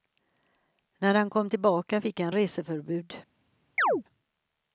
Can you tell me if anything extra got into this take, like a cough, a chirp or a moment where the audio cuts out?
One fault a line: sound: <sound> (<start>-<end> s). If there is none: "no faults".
sound: chirp (3.8-4.0 s)